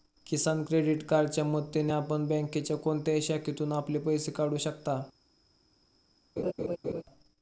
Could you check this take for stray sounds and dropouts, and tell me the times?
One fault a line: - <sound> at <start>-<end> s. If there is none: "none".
- laugh at 6.4-7.0 s